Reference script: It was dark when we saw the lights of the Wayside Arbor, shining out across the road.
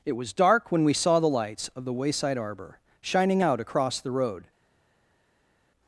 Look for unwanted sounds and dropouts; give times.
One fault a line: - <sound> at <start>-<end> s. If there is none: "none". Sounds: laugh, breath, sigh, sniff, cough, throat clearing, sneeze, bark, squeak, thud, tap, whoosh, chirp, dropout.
none